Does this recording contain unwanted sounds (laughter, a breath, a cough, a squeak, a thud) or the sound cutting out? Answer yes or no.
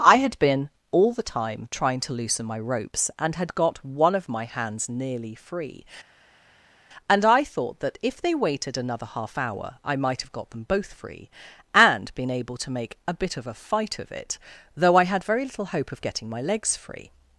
no